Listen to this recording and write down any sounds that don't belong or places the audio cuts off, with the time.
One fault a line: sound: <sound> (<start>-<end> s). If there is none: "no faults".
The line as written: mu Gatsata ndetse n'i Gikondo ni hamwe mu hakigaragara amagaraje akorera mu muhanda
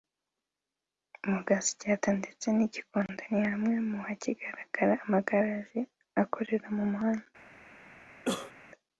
sound: cough (8.3-8.5 s)